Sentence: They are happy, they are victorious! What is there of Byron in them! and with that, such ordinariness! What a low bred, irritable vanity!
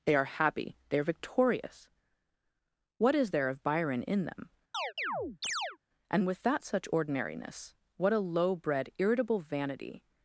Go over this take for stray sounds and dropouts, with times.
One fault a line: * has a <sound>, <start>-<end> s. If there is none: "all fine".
* has a chirp, 4.7-5.8 s